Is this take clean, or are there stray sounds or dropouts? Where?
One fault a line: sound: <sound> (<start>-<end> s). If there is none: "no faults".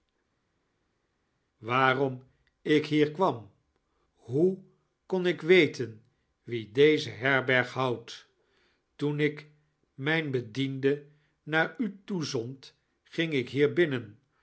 no faults